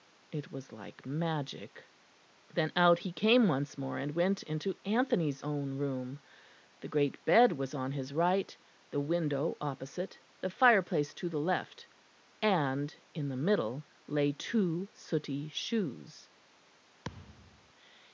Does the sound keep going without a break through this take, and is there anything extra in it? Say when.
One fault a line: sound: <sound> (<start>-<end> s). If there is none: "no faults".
sound: thud (17.0-17.7 s)